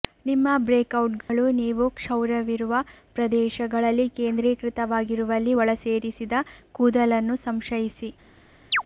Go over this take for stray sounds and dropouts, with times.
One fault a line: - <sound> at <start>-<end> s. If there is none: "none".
- dropout at 1.2-1.3 s
- chirp at 8.7-8.8 s